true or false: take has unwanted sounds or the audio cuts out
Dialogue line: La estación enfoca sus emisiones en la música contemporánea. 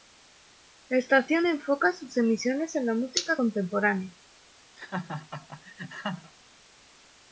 true